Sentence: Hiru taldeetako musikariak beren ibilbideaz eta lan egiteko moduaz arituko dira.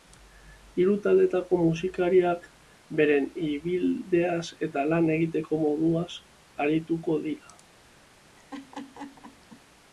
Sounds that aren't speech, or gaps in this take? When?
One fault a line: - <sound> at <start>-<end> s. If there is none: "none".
- laugh at 8.4-9.6 s